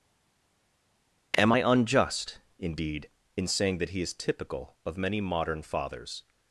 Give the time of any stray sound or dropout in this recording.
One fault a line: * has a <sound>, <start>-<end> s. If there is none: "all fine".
all fine